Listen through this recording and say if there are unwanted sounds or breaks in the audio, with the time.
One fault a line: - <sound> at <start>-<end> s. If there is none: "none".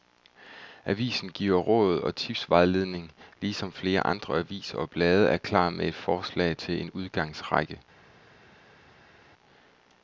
none